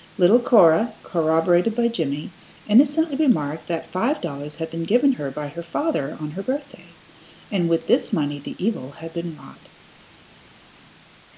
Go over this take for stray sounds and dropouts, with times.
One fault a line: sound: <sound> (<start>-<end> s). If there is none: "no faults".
no faults